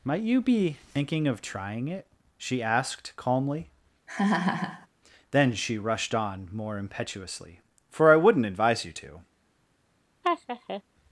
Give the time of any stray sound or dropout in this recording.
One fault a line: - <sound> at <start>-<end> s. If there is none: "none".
- laugh at 4.1-4.9 s
- laugh at 10.2-10.8 s